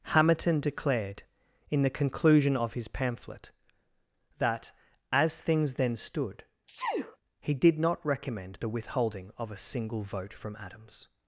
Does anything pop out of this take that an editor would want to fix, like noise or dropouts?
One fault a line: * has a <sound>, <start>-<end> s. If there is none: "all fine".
* has a sneeze, 6.7-7.2 s